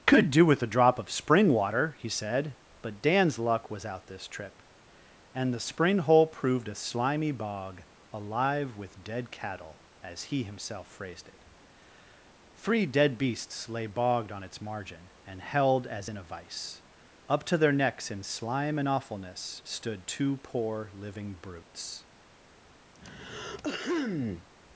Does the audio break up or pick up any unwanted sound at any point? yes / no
yes